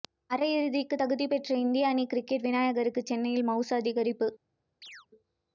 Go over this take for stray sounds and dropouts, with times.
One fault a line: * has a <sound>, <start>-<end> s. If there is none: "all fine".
* has a chirp, 4.8-5.1 s